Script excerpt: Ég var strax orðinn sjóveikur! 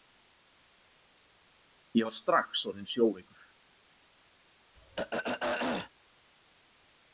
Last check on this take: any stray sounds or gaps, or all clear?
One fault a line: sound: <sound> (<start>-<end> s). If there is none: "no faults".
sound: throat clearing (4.8-5.9 s)